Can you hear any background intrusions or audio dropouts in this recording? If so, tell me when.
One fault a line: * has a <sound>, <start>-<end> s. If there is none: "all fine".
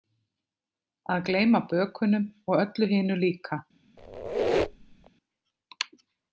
* has a squeak, 4.0-5.1 s